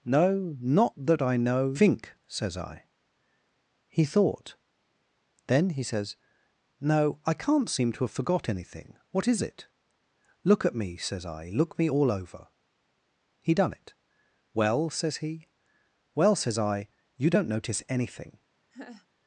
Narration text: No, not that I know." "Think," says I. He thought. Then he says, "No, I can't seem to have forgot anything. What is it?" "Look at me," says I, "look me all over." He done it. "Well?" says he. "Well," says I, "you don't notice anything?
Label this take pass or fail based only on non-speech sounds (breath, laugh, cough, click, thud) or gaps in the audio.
fail